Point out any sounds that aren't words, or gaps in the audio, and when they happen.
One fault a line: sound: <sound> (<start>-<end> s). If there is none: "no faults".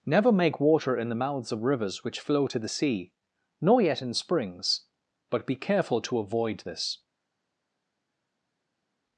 no faults